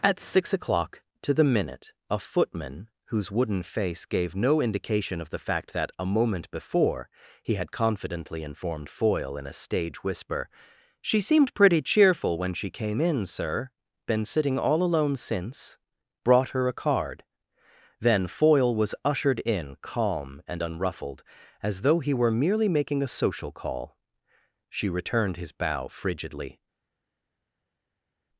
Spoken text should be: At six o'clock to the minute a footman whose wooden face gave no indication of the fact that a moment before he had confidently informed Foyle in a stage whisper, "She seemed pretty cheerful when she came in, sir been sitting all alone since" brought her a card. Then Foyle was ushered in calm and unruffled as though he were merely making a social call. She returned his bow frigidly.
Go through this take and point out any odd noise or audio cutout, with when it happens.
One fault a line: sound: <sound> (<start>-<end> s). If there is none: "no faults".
no faults